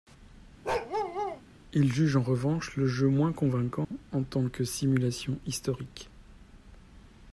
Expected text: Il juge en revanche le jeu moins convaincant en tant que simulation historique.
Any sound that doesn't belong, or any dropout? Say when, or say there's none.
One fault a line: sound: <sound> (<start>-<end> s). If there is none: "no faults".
sound: bark (0.6-1.4 s)
sound: dropout (3.8-3.9 s)